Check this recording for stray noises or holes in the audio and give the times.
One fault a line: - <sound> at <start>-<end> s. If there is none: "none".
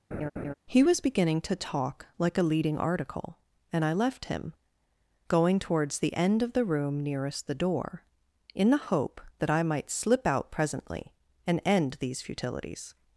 - laugh at 0.1-0.5 s